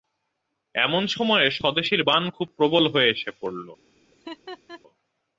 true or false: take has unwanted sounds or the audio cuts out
true